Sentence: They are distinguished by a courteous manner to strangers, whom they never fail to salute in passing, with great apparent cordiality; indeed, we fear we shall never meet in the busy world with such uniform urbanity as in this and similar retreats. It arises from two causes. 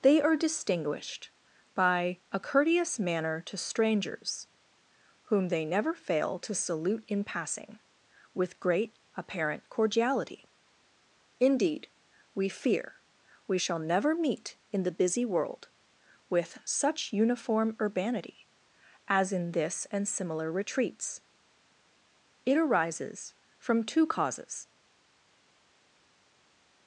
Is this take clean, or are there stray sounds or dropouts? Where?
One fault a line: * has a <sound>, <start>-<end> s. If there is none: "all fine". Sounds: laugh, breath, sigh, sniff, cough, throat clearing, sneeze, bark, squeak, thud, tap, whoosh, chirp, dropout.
all fine